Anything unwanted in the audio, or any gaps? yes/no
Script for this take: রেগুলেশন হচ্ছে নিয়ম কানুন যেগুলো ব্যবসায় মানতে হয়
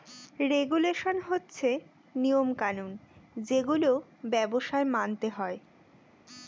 no